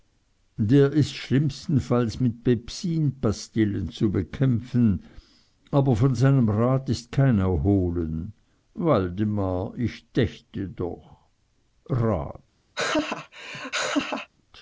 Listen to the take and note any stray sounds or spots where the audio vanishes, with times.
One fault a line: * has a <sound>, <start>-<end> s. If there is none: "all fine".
* has a laugh, 12.7-14.3 s